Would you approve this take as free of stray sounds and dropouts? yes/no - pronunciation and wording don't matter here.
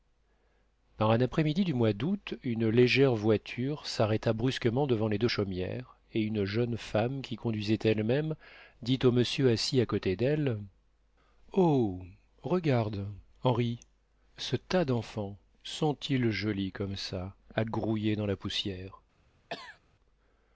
no